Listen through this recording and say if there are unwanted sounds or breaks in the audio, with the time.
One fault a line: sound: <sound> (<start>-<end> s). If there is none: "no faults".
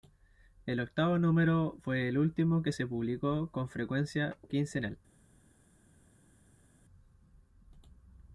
no faults